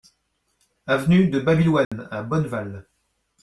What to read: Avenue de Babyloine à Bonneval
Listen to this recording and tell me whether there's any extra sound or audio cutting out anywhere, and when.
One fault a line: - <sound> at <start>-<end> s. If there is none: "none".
- dropout at 1.8-1.9 s